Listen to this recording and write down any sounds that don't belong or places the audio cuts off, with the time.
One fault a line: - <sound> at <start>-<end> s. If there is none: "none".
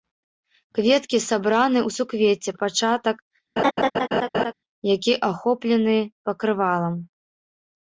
- laugh at 3.6-4.5 s